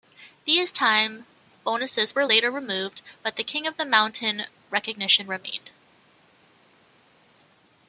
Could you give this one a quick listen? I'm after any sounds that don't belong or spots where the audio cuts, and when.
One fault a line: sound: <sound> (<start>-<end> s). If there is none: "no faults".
no faults